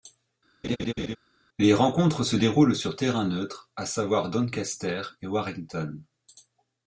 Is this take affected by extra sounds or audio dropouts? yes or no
yes